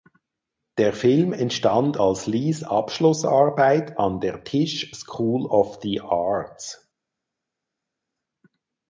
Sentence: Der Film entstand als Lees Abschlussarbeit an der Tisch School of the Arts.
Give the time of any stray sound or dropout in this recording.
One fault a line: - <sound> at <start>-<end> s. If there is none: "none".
none